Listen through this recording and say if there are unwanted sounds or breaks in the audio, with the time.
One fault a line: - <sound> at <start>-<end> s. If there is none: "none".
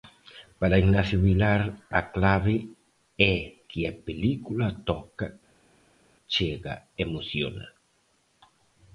none